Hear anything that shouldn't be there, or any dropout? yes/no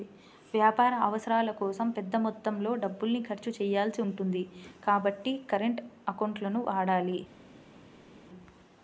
no